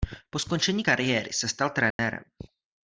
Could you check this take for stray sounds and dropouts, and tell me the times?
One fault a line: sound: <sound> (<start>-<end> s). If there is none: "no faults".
sound: dropout (1.9-2.0 s)